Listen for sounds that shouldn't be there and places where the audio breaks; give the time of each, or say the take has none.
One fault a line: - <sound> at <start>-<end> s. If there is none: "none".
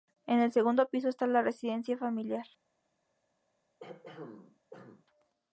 - throat clearing at 3.8-5.1 s